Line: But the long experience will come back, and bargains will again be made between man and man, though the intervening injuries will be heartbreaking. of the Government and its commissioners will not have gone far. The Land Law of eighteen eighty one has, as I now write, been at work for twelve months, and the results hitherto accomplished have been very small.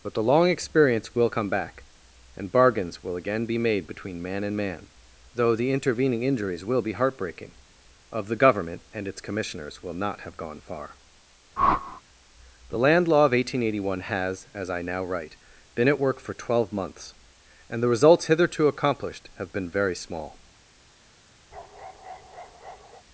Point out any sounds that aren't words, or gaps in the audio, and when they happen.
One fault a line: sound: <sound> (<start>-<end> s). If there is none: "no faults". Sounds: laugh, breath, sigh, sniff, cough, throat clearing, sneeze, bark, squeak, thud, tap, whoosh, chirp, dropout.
sound: whoosh (11.6-12.0 s)
sound: bark (21.5-23.0 s)